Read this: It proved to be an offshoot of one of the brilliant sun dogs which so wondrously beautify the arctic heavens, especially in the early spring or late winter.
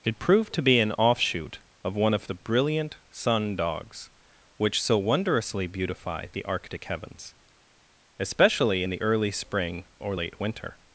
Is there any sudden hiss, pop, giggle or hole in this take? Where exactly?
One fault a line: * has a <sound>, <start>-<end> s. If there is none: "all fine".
all fine